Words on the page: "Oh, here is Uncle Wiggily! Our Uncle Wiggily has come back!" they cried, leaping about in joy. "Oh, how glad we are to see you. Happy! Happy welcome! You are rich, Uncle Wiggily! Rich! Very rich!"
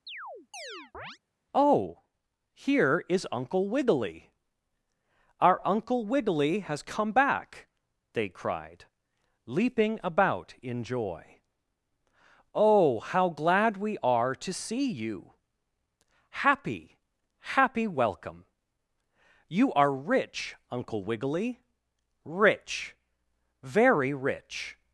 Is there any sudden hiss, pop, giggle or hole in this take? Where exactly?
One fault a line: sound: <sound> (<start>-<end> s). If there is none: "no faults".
sound: chirp (0.1-1.2 s)